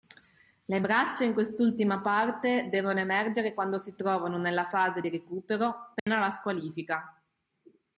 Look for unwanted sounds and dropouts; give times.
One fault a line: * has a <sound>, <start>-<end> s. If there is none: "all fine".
* has a dropout, 6.0-6.1 s